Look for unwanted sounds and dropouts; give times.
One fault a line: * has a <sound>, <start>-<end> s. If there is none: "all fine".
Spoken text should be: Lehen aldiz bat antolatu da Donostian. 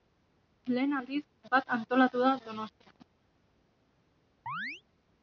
* has a chirp, 4.5-4.8 s